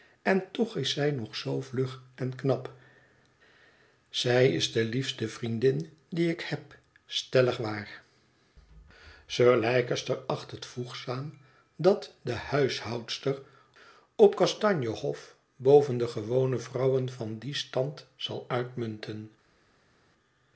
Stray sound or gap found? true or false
false